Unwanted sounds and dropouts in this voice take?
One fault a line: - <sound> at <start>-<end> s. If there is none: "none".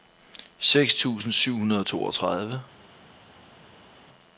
none